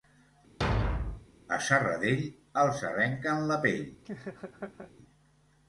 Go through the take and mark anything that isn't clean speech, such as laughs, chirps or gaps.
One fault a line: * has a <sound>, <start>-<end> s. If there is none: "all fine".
* has a thud, 0.6-1.3 s
* has a laugh, 4.0-4.9 s